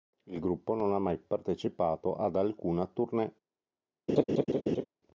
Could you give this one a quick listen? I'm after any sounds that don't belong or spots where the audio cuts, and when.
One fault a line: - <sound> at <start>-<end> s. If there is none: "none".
- laugh at 4.1-4.8 s